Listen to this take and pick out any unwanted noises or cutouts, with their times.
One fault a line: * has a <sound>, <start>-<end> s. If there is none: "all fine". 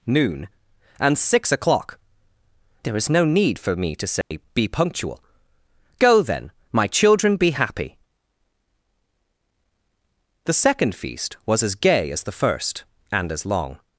* has a dropout, 4.2-4.3 s